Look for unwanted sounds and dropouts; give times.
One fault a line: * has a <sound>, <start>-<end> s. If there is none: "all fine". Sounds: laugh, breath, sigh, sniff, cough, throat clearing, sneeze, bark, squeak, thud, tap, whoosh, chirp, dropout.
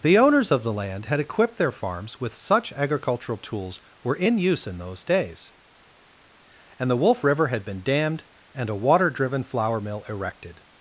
all fine